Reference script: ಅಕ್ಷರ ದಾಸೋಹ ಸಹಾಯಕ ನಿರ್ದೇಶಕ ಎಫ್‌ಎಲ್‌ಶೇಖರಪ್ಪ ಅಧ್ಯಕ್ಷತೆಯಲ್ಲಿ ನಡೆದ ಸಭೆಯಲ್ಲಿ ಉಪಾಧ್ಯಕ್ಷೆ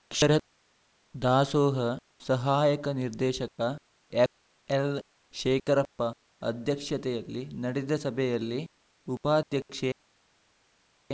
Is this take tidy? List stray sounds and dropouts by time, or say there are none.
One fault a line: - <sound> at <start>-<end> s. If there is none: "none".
none